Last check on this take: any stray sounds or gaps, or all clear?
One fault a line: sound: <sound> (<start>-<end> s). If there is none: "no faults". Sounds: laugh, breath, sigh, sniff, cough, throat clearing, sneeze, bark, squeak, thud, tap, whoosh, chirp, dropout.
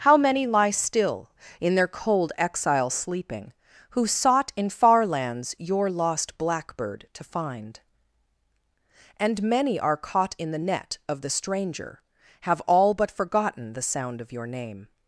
no faults